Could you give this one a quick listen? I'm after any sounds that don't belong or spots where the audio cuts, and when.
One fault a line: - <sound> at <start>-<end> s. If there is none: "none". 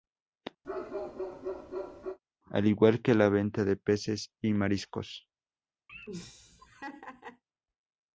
- bark at 0.6-2.2 s
- laugh at 5.9-7.4 s